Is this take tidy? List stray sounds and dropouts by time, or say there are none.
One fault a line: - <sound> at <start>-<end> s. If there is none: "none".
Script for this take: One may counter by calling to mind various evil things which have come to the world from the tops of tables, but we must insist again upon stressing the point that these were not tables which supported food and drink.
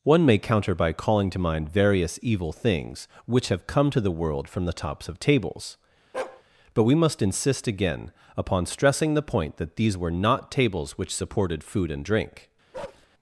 - bark at 6.1-6.4 s
- bark at 12.7-13.1 s